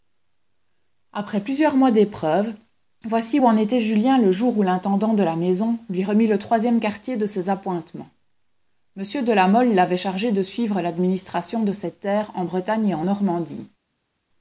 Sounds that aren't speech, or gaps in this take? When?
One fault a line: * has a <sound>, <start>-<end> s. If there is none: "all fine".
all fine